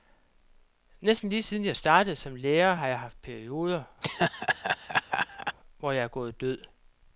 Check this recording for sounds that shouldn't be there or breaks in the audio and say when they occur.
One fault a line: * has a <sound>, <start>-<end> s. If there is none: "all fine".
* has a laugh, 4.0-5.6 s